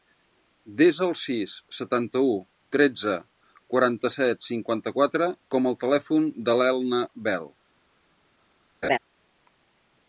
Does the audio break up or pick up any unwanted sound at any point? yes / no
yes